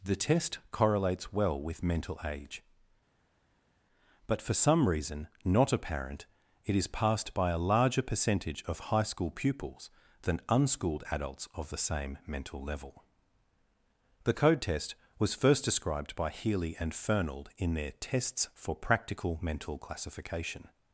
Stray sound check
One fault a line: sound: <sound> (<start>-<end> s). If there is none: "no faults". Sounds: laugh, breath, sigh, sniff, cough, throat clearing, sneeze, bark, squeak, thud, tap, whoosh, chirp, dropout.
no faults